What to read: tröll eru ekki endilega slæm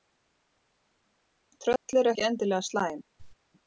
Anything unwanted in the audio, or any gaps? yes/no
yes